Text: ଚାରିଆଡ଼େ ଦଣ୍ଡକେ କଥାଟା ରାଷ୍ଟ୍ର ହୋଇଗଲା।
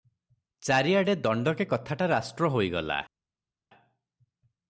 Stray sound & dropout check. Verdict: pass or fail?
pass